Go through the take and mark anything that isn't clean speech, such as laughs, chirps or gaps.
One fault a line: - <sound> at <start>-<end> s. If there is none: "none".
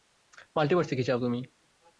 none